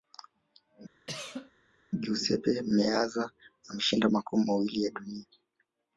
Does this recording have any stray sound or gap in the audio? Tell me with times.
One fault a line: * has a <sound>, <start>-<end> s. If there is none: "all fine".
* has a cough, 1.1-1.5 s